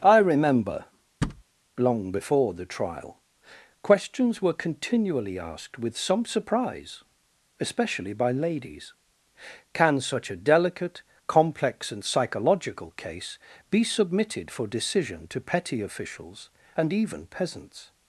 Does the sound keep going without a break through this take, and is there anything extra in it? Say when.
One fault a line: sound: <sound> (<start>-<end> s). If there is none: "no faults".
sound: thud (1.2-1.4 s)